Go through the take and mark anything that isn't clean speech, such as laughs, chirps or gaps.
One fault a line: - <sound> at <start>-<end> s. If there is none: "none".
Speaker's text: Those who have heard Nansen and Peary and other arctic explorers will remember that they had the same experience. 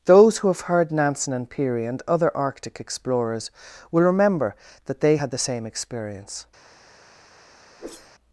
- whoosh at 7.8-8.1 s